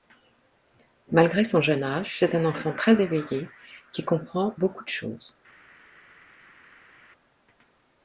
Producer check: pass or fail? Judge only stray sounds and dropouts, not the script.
pass